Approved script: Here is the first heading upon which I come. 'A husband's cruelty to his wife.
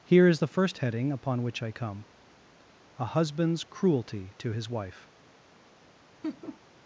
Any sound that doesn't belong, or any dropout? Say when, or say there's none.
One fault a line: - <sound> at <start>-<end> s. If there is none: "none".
- laugh at 6.2-6.6 s